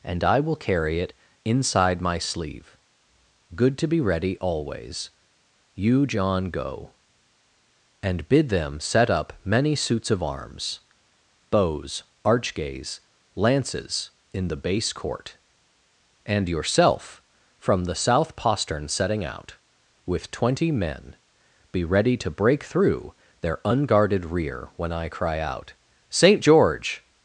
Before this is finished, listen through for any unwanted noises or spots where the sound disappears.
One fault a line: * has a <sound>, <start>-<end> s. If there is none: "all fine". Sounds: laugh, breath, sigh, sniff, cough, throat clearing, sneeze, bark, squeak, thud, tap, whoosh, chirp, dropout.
all fine